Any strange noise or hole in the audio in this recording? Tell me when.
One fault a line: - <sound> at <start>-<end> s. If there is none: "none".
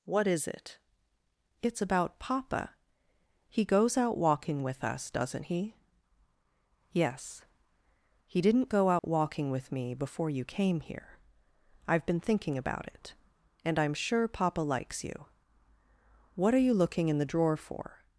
- dropout at 9.0-9.0 s